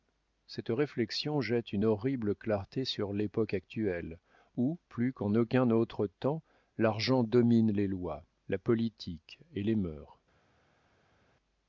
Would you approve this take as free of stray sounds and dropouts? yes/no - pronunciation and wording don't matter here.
yes